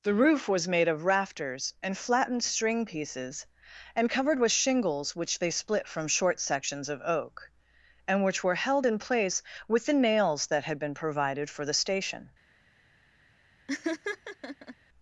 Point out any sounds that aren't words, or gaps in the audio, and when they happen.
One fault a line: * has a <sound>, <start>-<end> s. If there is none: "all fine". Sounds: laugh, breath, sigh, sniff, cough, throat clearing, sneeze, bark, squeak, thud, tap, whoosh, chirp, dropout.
* has a laugh, 13.7-14.8 s